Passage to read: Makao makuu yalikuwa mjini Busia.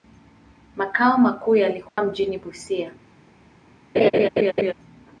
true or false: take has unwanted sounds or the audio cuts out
true